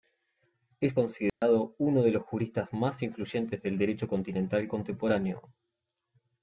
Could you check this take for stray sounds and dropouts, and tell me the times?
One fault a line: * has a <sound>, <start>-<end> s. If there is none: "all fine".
* has a dropout, 1.3-1.4 s